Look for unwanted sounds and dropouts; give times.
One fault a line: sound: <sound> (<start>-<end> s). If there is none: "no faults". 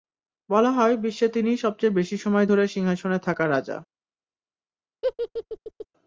sound: laugh (5.0-5.9 s)